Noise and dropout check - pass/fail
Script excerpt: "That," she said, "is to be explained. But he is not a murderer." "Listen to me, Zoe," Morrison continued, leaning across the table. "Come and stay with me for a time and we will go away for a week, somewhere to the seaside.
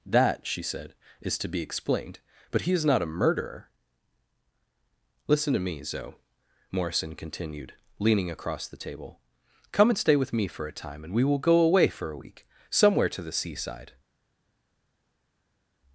pass